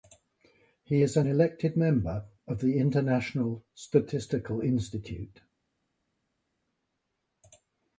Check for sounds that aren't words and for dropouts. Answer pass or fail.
pass